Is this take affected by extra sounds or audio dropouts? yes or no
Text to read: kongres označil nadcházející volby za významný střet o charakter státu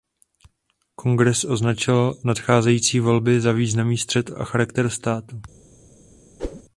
yes